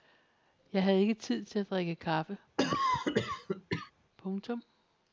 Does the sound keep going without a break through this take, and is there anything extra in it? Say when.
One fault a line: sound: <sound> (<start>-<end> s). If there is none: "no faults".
sound: cough (2.6-3.9 s)